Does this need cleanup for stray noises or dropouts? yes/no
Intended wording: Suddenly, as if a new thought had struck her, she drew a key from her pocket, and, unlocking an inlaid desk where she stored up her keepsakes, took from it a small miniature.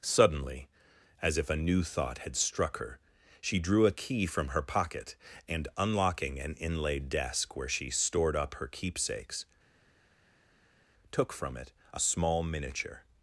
no